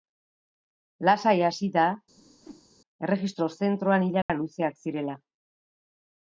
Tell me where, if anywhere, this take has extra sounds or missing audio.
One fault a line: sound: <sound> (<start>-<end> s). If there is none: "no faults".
sound: whoosh (2.2-2.7 s)
sound: dropout (4.2-4.3 s)